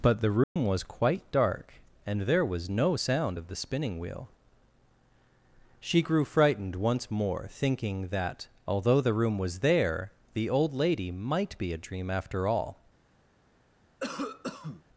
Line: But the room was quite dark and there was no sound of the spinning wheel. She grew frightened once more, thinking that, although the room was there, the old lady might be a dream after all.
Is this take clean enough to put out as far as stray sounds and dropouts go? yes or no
no